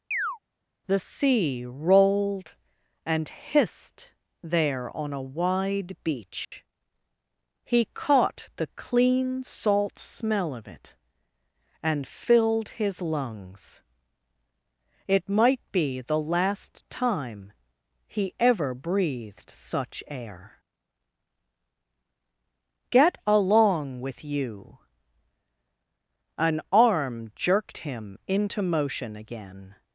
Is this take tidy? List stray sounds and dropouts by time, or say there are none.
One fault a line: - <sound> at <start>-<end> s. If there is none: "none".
- chirp at 0.1-0.4 s
- dropout at 6.4-6.5 s